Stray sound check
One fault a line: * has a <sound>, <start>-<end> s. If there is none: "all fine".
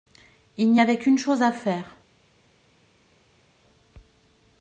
all fine